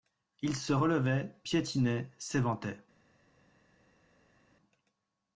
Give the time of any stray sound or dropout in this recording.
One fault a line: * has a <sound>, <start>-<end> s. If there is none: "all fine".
all fine